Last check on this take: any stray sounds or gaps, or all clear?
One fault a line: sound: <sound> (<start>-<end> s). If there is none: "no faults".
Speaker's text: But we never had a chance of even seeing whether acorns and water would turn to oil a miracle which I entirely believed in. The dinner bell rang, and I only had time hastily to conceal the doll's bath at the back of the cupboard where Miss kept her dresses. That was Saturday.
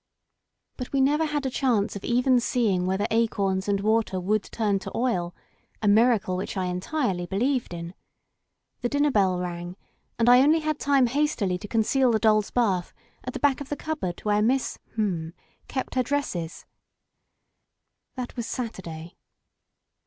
no faults